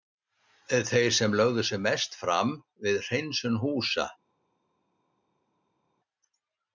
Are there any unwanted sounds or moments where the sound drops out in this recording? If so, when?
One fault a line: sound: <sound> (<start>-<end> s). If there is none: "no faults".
no faults